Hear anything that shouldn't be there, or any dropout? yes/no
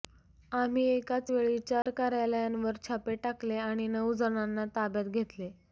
yes